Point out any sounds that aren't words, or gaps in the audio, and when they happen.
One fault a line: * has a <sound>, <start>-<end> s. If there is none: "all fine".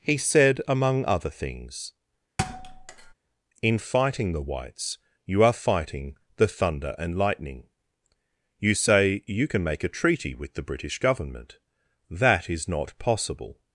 * has a thud, 2.4-3.1 s